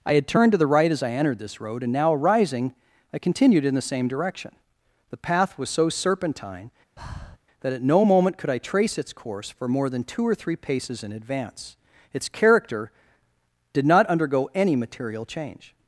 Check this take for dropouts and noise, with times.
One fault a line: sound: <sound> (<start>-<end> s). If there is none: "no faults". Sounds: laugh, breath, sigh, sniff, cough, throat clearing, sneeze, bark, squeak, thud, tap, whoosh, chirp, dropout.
sound: breath (7.0-7.4 s)